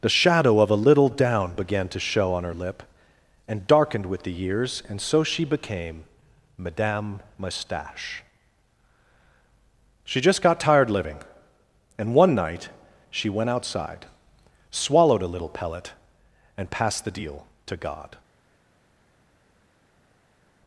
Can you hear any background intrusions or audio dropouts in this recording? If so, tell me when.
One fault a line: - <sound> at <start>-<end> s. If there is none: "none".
none